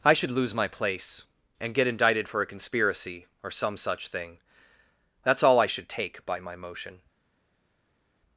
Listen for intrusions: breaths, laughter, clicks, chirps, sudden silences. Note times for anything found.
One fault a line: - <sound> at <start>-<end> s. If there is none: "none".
none